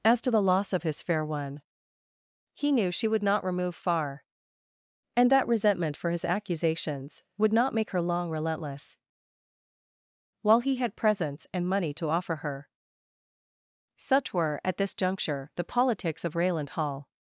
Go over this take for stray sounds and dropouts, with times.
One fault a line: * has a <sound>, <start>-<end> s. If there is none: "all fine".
all fine